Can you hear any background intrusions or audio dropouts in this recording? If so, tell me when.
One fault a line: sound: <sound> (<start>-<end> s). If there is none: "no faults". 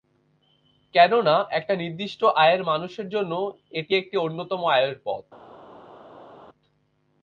no faults